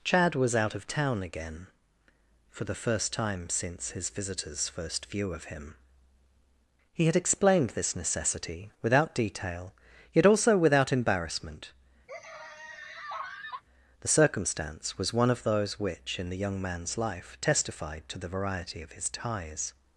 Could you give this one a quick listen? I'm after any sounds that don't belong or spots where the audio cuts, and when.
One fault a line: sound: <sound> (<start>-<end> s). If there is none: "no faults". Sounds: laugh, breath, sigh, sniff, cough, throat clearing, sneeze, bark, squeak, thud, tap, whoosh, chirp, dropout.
sound: laugh (12.1-13.6 s)